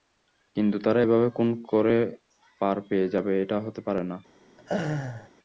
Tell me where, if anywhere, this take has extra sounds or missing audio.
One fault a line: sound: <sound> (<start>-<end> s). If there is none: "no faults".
sound: laugh (4.6-5.3 s)